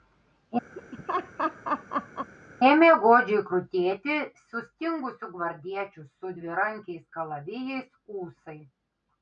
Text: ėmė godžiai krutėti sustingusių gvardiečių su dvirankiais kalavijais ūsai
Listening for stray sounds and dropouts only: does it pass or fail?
fail